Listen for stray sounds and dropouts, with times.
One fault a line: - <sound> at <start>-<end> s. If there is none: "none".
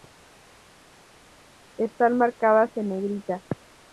none